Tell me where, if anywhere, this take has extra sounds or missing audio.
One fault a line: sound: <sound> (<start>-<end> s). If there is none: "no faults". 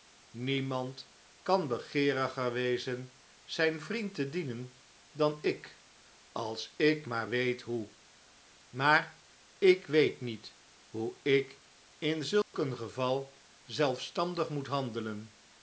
sound: dropout (12.4-12.5 s)